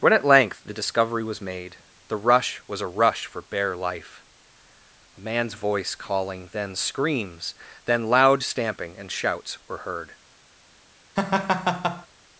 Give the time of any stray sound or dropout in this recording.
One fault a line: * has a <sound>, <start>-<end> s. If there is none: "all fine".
* has a laugh, 11.2-12.1 s